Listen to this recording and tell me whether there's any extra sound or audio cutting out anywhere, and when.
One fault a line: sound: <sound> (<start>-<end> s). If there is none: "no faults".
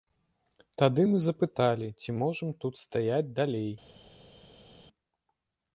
no faults